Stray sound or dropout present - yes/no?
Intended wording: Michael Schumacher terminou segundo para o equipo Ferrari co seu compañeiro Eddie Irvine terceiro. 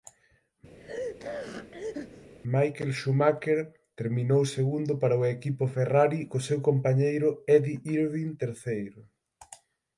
yes